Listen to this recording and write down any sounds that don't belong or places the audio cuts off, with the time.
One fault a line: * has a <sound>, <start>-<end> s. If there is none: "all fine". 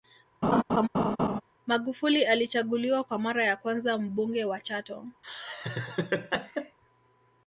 * has a laugh, 0.4-1.4 s
* has a laugh, 5.2-6.8 s